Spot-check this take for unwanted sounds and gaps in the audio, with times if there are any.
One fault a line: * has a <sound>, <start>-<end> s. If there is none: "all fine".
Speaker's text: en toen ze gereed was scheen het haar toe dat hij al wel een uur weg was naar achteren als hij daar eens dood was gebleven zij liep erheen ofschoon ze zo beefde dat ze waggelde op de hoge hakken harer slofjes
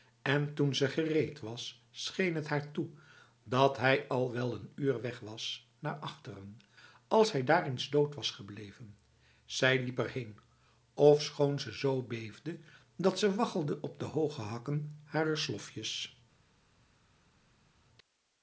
all fine